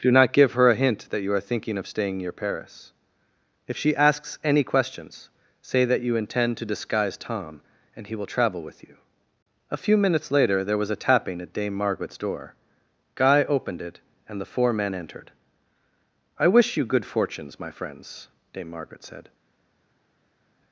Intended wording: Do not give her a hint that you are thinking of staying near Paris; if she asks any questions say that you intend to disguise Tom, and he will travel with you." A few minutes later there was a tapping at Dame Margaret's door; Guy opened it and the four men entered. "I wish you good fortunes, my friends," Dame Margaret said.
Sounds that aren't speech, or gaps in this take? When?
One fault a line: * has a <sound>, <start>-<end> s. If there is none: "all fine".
all fine